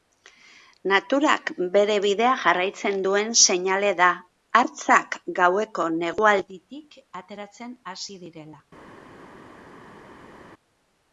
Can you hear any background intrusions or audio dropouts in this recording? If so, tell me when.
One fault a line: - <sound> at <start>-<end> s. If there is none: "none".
none